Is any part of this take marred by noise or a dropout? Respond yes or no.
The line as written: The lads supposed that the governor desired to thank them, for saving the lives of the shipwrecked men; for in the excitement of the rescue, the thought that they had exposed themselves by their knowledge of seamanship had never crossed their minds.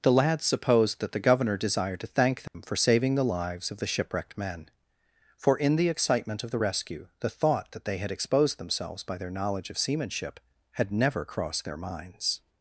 yes